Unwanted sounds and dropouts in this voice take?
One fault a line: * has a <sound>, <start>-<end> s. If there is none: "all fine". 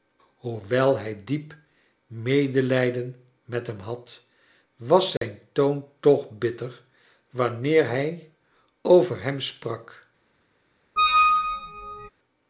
* has a dropout, 5.2-5.2 s
* has a squeak, 11.0-12.1 s